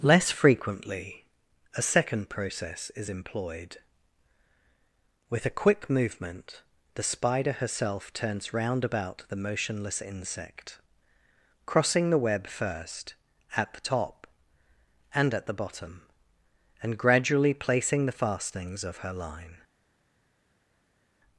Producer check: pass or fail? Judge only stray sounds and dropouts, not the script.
pass